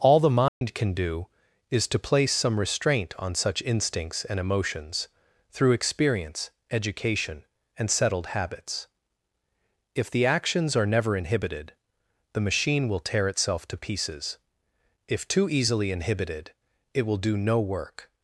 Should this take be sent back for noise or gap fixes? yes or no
yes